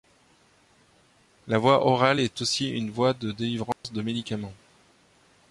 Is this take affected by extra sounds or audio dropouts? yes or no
yes